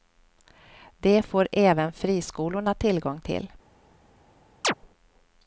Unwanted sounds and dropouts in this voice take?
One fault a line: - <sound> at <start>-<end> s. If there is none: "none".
- chirp at 4.6-4.7 s